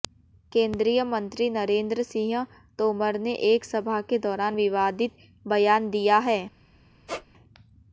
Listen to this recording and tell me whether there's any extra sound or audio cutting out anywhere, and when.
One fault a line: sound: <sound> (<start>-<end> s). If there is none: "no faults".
sound: squeak (7.1-7.3 s)